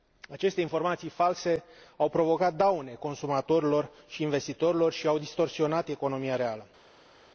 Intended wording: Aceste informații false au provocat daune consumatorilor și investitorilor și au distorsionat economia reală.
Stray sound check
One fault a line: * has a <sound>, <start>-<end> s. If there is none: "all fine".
all fine